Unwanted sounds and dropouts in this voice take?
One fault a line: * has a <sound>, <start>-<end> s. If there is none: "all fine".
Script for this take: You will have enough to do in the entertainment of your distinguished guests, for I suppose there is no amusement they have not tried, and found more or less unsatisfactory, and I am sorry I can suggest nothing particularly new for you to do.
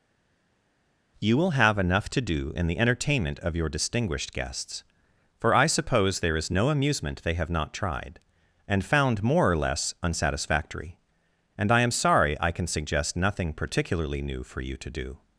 all fine